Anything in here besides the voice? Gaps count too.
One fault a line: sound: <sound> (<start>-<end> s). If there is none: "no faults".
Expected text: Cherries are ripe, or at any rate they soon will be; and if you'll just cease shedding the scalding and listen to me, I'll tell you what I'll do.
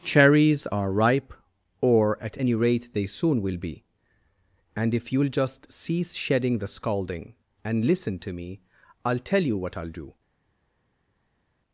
no faults